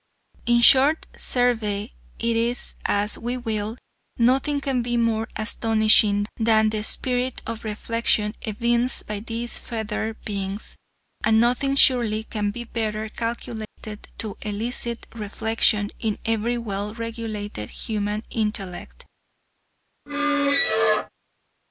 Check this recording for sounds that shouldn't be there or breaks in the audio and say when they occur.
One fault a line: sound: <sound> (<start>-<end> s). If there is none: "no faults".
sound: dropout (13.7-13.8 s)
sound: squeak (20.1-21.1 s)